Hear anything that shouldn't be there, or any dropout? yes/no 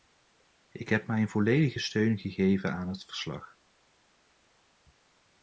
no